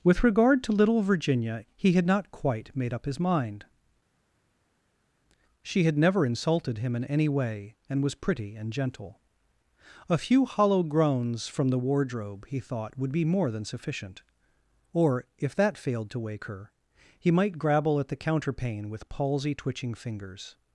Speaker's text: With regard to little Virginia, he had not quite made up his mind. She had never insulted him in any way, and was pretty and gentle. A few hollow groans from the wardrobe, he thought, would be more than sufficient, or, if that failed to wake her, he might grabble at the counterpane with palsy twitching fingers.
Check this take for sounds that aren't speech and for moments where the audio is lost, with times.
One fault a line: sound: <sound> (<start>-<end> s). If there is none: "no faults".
no faults